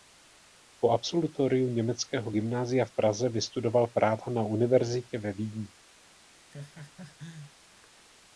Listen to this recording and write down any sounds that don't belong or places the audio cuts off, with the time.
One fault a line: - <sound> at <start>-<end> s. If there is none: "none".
- laugh at 6.5-7.5 s